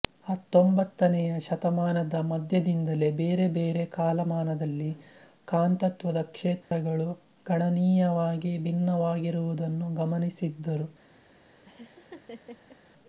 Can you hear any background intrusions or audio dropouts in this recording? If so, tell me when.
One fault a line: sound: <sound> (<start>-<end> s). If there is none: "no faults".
sound: dropout (6.6-6.7 s)
sound: laugh (11.6-12.8 s)